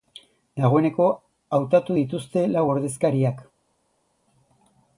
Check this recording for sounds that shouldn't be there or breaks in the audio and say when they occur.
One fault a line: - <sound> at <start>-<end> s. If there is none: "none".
none